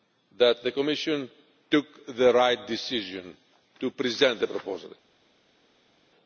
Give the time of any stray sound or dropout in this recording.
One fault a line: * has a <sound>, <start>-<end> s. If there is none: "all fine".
all fine